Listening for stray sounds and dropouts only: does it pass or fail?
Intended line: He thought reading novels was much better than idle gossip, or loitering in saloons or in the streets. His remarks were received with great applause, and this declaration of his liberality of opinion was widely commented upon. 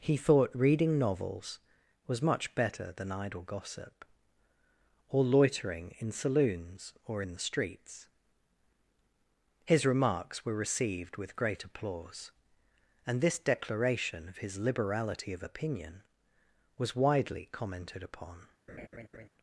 fail